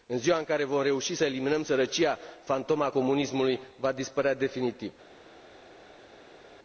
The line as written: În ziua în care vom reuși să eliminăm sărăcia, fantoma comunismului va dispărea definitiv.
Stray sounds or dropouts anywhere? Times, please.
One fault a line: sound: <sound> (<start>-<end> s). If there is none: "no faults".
no faults